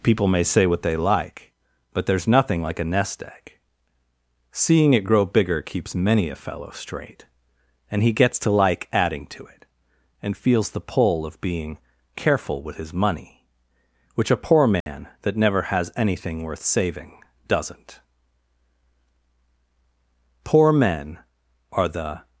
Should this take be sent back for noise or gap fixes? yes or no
yes